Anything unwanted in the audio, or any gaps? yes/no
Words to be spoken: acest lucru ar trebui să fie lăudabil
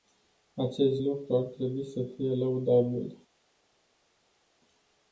no